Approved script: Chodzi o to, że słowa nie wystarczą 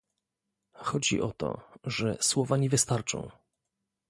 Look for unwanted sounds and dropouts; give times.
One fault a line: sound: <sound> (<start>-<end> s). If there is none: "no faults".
no faults